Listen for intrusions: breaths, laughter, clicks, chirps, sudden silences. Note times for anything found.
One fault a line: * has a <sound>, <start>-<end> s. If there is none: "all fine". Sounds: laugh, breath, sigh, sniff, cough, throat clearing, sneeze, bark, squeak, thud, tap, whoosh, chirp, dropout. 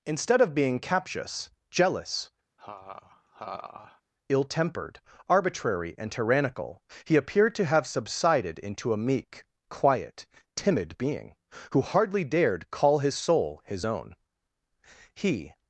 * has a laugh, 2.6-4.0 s